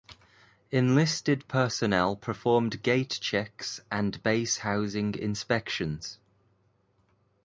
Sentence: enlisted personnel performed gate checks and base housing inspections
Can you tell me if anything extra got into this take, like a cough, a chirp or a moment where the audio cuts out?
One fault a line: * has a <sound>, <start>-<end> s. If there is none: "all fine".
all fine